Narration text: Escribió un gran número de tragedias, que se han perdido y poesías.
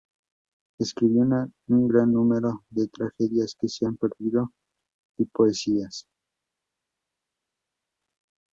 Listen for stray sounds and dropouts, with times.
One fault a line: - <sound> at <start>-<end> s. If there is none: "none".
none